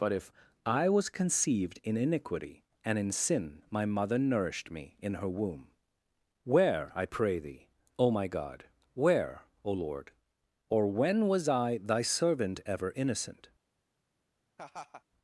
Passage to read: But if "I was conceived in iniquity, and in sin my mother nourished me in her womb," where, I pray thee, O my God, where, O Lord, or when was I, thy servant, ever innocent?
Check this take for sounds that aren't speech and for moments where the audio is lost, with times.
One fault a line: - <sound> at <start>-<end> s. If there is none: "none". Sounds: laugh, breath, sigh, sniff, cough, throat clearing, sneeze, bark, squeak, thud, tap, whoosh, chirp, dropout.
- laugh at 14.6-15.0 s